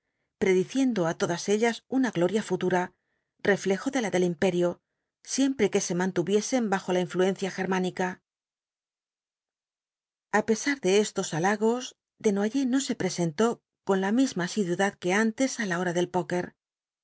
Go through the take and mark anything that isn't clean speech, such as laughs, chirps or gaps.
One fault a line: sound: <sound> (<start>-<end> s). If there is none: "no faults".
no faults